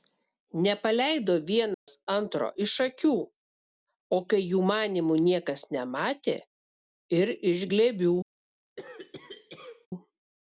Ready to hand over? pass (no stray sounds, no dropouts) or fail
fail